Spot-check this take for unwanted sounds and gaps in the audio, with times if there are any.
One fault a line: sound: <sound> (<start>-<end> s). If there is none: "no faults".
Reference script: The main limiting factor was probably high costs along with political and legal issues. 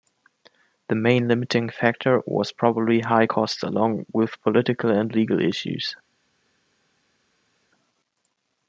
no faults